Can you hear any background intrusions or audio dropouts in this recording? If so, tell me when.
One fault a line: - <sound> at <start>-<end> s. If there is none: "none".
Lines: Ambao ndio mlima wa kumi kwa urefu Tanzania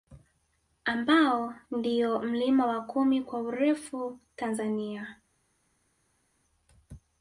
none